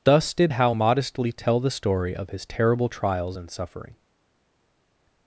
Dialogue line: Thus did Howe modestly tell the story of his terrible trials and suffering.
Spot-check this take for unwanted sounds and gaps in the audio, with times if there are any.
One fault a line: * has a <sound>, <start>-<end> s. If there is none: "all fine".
all fine